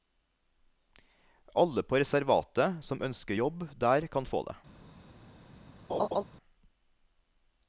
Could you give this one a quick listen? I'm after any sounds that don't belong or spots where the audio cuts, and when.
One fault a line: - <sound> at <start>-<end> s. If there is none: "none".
- laugh at 5.9-6.2 s